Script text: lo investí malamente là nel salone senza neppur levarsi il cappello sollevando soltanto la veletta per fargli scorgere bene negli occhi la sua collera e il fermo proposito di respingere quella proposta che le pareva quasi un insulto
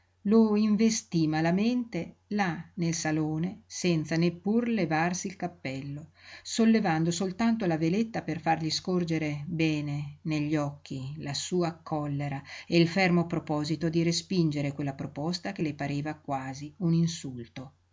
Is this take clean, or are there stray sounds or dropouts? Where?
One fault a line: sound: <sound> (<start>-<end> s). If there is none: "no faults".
no faults